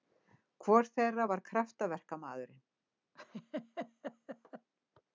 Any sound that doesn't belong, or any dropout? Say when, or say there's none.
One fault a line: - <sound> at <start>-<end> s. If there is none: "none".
- laugh at 3.1-4.7 s